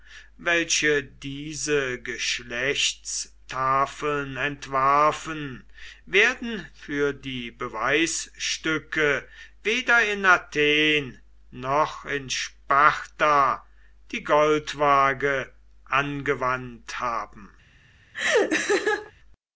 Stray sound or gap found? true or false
true